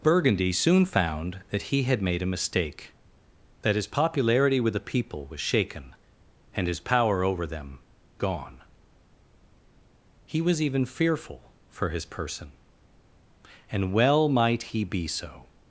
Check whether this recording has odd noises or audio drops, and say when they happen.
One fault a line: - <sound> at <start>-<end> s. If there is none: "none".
none